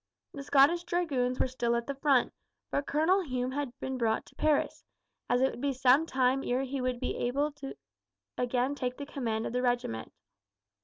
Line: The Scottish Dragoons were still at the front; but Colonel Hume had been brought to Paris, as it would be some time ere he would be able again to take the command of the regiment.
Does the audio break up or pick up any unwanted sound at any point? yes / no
no